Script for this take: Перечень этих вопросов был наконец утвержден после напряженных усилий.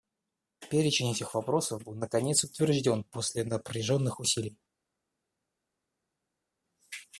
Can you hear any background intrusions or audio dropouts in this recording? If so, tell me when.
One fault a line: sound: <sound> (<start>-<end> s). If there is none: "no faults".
no faults